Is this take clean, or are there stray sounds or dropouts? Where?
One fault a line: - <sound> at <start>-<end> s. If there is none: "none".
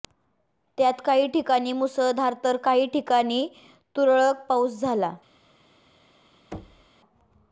- thud at 6.5-6.9 s